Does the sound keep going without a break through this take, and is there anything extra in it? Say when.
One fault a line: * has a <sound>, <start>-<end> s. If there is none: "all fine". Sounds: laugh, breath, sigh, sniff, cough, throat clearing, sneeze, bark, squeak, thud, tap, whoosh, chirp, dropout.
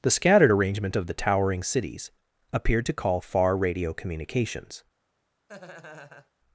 * has a laugh, 5.5-6.3 s